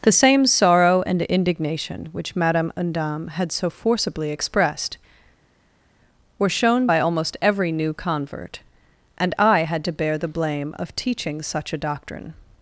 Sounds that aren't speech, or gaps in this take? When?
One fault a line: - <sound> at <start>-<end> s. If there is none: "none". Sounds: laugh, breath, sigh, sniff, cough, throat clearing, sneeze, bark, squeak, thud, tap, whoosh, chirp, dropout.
none